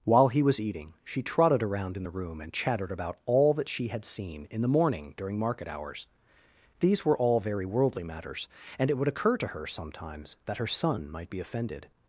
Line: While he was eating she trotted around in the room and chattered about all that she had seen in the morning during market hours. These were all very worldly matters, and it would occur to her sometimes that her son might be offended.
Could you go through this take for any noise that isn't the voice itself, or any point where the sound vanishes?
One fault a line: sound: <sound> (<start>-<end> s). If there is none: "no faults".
no faults